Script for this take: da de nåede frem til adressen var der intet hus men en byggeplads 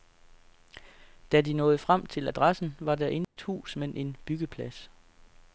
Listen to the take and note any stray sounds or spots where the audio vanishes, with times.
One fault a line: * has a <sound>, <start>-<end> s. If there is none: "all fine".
* has a dropout, 3.2-3.4 s